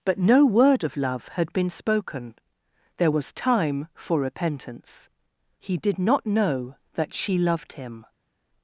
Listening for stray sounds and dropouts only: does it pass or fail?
pass